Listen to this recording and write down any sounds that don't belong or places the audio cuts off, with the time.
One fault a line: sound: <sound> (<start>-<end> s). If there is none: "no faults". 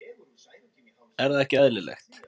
no faults